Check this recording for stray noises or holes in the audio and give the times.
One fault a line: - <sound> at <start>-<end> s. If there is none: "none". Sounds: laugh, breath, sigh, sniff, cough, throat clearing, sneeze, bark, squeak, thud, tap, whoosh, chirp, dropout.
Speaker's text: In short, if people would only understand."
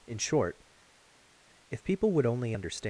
none